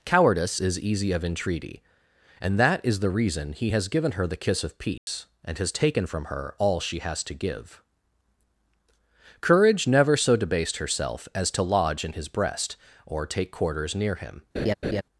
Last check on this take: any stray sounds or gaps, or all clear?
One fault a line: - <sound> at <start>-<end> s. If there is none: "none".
- dropout at 5.0-5.1 s
- laugh at 14.6-15.0 s